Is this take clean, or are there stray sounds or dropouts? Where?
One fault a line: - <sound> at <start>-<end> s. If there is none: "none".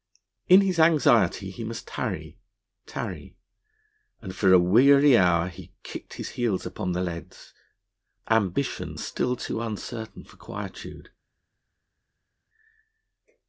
none